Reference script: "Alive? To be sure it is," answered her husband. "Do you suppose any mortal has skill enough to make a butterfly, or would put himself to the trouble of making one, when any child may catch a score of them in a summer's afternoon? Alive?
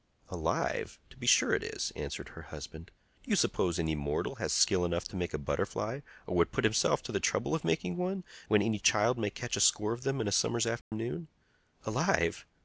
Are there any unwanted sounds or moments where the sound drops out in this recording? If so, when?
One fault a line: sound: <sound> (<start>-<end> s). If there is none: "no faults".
sound: dropout (10.8-10.9 s)